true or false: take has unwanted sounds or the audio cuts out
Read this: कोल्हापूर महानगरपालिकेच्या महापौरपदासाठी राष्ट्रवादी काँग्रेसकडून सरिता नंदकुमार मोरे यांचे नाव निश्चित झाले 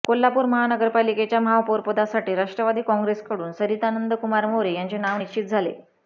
false